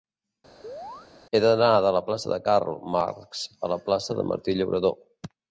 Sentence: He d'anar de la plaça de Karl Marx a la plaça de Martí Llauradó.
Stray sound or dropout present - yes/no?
yes